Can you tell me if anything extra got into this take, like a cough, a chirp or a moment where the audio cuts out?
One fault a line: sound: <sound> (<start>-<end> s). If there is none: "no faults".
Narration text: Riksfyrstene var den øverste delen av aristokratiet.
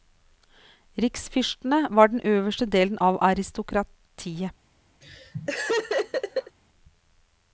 sound: laugh (5.0-6.6 s)